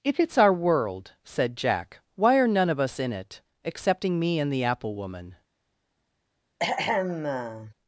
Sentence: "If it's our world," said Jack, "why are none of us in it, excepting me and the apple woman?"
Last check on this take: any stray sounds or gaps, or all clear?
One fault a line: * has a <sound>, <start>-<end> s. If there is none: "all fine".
* has a throat clearing, 6.6-7.7 s